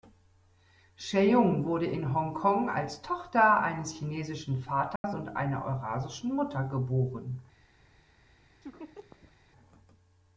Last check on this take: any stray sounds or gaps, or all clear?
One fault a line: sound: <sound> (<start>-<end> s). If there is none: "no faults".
sound: dropout (5.0-5.0 s)
sound: laugh (8.6-9.3 s)